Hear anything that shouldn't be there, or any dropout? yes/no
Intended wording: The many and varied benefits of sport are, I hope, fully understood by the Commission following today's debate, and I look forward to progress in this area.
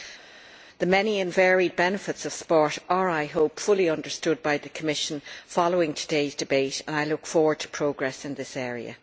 no